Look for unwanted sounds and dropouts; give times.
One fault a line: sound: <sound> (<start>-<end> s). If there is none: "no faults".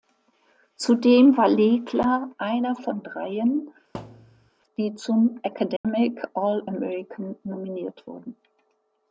sound: thud (3.9-4.5 s)
sound: dropout (5.8-5.8 s)